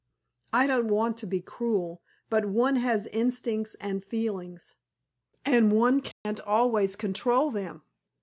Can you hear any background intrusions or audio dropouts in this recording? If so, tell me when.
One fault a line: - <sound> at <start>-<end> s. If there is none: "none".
- dropout at 6.1-6.3 s